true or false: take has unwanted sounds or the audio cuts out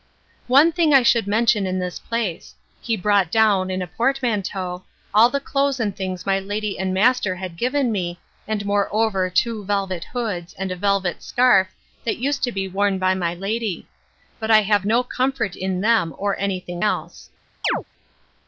true